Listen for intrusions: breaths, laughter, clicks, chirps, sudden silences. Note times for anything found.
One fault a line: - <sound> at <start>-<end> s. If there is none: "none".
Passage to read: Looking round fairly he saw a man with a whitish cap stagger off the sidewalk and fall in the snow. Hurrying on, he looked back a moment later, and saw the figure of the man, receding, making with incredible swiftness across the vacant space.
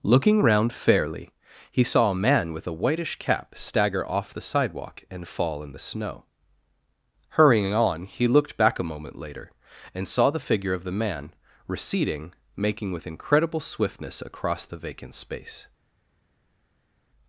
none